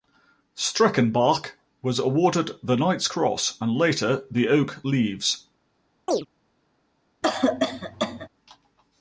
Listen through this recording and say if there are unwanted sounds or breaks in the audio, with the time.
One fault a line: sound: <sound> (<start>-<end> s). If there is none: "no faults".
sound: chirp (6.1-6.3 s)
sound: cough (7.2-8.3 s)